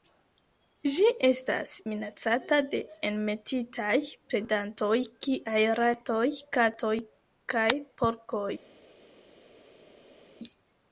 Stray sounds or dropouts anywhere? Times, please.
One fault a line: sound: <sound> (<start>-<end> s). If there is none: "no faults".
no faults